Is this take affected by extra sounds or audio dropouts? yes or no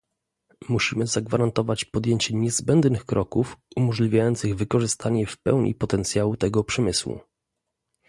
no